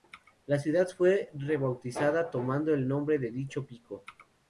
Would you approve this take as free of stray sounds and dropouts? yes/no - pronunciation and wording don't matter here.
yes